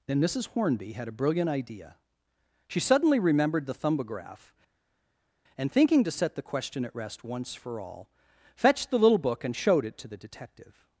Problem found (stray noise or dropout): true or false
false